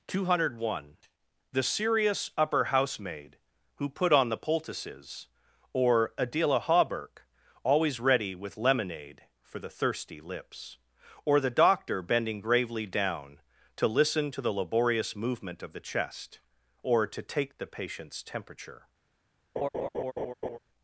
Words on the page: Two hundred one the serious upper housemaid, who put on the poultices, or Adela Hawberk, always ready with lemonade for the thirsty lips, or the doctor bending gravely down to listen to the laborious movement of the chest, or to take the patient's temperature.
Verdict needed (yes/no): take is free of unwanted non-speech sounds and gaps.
no